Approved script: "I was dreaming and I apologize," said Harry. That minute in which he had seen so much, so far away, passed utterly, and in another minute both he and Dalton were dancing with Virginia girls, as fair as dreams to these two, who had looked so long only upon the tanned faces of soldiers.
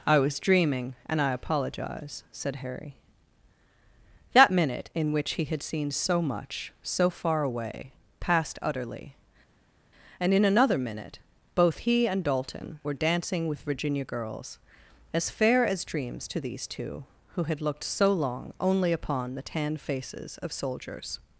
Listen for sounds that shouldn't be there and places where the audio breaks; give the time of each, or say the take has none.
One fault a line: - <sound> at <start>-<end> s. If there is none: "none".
none